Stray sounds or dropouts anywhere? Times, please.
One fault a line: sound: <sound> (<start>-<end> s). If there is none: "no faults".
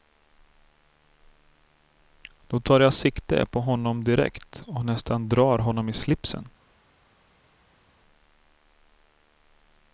no faults